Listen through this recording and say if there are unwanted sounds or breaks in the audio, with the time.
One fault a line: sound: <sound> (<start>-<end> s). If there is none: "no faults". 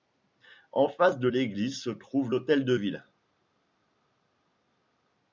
no faults